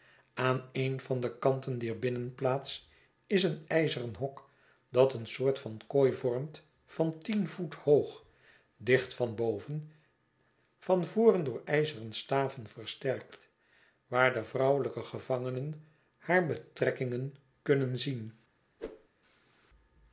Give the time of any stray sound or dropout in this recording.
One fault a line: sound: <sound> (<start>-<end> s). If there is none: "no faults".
sound: whoosh (18.8-19.1 s)